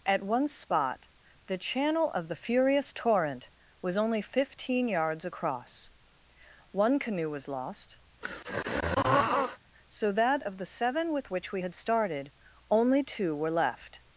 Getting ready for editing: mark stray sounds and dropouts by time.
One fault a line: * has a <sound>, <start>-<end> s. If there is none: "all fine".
* has a throat clearing, 8.2-9.6 s